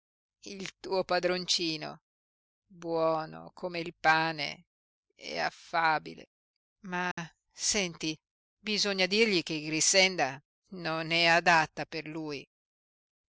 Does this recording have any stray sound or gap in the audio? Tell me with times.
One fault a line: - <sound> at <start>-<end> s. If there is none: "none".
- dropout at 7.1-7.2 s